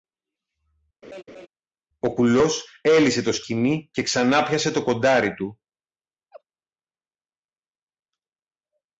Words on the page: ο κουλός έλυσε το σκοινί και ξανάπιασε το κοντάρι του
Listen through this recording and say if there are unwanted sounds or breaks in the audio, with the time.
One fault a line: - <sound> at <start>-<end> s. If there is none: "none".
- laugh at 1.0-1.5 s
- laugh at 6.3-6.4 s